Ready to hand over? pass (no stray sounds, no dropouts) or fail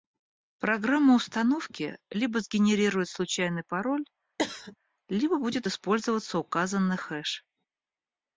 fail